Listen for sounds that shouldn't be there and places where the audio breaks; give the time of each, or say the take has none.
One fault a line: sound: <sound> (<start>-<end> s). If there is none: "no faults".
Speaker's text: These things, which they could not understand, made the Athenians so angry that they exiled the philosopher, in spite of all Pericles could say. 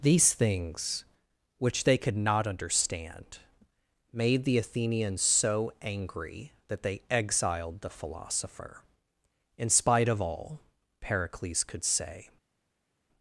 no faults